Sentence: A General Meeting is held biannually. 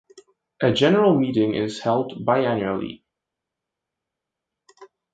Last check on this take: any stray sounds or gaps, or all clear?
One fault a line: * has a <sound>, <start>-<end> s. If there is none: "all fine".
all fine